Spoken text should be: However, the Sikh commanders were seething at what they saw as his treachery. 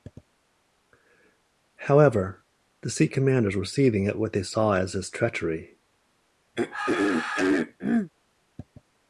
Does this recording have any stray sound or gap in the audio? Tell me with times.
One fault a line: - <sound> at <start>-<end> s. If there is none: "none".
- throat clearing at 6.5-8.1 s